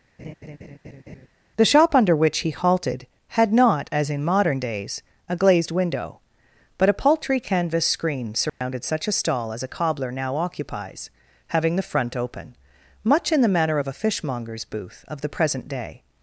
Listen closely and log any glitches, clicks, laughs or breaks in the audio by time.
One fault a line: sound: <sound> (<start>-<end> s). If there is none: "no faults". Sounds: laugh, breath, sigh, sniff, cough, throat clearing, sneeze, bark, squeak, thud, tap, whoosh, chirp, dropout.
sound: laugh (0.2-1.3 s)
sound: dropout (8.5-8.6 s)